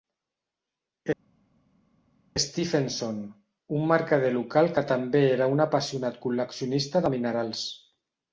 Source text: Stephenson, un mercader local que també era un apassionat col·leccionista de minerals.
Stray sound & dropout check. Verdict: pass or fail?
pass